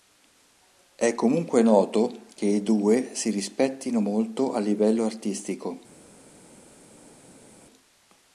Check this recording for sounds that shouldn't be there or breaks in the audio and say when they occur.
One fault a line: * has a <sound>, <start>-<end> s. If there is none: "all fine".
all fine